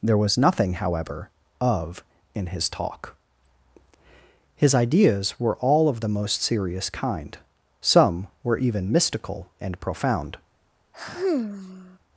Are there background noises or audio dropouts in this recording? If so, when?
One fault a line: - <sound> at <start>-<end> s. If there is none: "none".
- sigh at 10.9-12.0 s